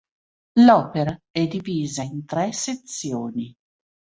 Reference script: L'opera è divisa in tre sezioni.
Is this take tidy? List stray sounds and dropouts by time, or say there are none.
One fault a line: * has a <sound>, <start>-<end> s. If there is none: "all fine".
all fine